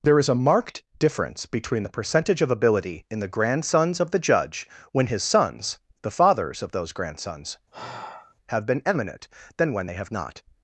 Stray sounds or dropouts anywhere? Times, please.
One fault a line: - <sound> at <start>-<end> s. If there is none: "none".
- sigh at 7.7-8.4 s